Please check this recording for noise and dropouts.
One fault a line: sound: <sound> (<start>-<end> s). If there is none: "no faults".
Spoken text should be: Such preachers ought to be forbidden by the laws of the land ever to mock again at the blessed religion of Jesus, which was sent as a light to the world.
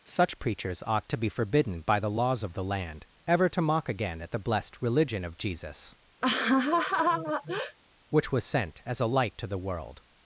sound: laugh (6.2-7.8 s)